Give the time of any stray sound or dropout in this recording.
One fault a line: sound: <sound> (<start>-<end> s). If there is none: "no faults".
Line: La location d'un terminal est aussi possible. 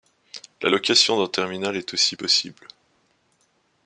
no faults